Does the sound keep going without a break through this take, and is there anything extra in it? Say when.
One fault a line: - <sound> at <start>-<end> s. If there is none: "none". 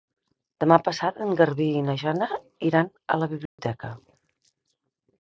- dropout at 3.5-3.6 s